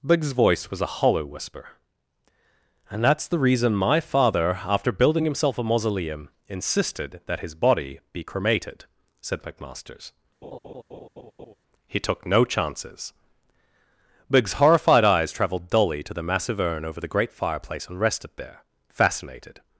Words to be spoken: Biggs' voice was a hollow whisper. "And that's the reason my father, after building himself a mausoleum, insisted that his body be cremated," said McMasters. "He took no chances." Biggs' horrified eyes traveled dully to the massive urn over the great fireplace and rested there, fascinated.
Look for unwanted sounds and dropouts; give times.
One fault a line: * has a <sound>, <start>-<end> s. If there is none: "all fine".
* has a laugh, 10.4-11.5 s